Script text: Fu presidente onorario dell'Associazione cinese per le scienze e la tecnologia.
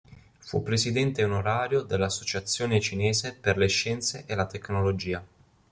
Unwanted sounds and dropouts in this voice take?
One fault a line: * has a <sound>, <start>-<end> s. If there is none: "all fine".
all fine